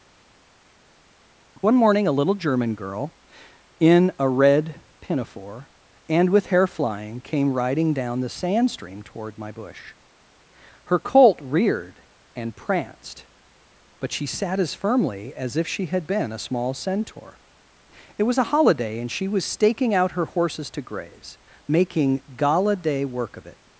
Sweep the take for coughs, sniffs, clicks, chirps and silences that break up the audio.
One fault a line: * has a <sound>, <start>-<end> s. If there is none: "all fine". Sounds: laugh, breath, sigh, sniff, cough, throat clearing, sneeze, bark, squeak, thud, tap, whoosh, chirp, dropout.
all fine